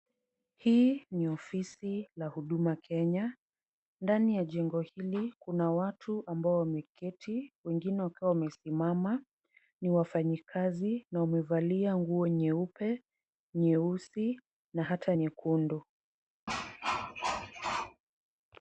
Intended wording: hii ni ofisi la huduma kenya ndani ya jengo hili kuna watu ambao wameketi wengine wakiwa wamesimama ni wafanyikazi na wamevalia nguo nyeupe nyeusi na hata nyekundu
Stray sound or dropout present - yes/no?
yes